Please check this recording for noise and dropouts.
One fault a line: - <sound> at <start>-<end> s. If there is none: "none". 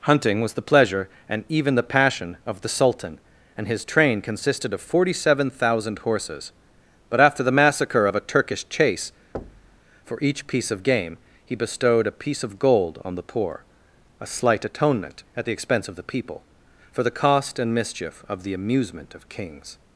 - thud at 9.3-9.8 s